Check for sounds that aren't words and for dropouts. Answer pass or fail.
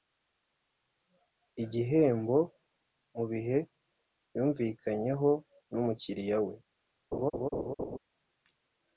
fail